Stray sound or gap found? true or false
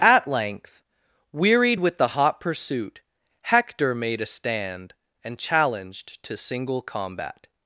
false